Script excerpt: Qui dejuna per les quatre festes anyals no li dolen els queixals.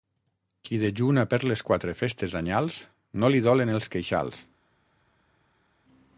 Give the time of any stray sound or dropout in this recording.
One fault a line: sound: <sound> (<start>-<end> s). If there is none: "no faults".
no faults